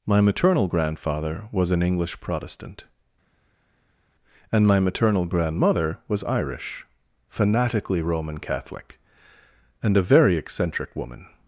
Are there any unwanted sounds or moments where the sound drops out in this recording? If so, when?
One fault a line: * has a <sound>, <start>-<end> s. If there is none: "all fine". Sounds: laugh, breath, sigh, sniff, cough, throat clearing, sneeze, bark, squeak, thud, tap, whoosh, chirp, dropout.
all fine